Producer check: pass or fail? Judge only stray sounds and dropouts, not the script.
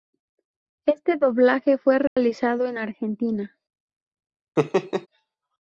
fail